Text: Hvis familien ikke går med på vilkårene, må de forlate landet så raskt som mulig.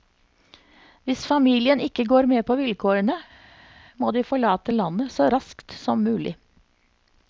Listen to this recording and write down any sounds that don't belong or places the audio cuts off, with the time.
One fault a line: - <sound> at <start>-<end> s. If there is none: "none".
none